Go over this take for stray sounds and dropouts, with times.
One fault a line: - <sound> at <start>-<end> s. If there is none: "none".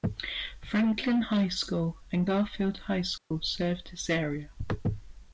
- dropout at 3.2-3.3 s